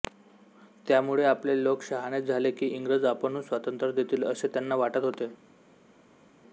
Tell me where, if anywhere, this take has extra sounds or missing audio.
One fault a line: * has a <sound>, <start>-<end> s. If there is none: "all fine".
all fine